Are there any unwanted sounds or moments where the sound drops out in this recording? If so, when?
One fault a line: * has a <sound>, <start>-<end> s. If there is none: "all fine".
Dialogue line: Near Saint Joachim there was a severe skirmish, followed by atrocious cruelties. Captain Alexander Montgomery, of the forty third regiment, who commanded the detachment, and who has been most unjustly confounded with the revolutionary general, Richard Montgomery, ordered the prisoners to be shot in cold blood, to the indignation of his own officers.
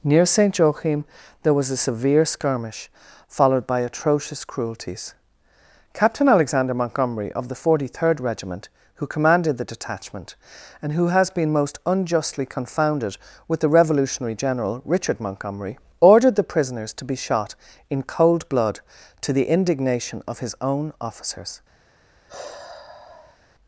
* has a sigh, 22.3-23.4 s